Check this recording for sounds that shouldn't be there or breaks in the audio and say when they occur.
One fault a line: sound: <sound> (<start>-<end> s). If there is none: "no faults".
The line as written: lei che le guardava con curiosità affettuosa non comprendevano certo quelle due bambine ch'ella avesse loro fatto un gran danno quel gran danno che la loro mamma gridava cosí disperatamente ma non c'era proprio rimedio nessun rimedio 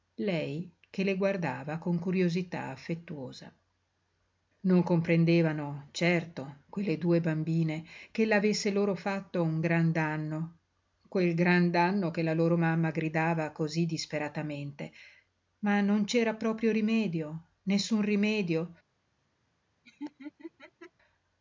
sound: laugh (19.8-20.9 s)